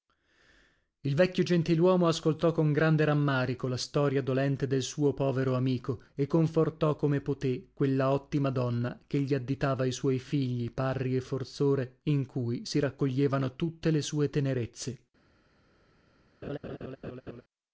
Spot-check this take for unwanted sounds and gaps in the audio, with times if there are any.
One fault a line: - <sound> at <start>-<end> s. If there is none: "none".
- laugh at 16.4-17.4 s